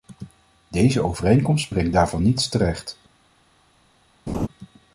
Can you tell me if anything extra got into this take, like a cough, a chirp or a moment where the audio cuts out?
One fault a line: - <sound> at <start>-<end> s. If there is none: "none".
- laugh at 4.3-4.5 s